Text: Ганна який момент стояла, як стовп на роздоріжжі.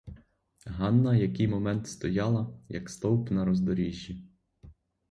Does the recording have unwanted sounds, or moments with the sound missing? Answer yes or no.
no